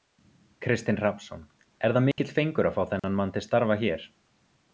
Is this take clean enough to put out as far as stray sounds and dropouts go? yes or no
no